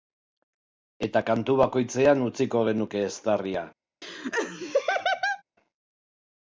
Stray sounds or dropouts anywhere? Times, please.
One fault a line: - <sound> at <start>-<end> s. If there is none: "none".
- laugh at 4.0-5.4 s